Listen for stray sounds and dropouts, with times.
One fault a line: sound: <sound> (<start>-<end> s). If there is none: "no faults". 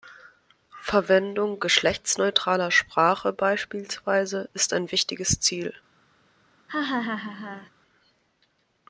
sound: laugh (6.7-7.7 s)